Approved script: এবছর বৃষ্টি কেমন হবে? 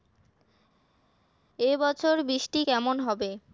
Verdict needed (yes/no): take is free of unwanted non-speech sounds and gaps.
yes